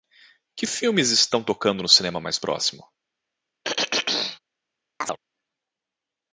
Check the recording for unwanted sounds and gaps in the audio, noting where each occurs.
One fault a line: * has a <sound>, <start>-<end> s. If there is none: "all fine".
* has a throat clearing, 3.6-4.4 s
* has a chirp, 5.0-5.2 s